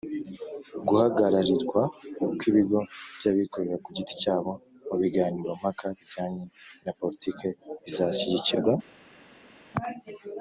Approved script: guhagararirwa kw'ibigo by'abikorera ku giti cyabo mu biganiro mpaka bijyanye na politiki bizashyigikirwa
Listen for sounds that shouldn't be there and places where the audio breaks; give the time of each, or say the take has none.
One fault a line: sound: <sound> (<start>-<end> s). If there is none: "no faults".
no faults